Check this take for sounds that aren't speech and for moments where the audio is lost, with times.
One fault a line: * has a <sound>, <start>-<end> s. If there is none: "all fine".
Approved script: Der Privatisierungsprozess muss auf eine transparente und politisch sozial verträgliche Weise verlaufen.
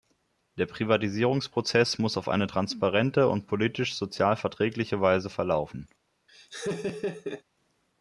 * has a laugh, 6.3-7.4 s